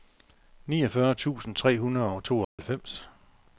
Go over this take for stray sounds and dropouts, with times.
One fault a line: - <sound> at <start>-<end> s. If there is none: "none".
- dropout at 2.4-2.6 s